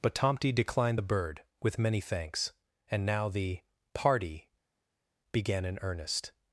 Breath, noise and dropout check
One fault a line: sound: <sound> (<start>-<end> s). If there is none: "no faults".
no faults